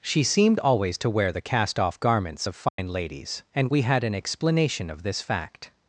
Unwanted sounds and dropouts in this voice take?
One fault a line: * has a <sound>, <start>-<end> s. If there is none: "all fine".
* has a dropout, 2.7-2.8 s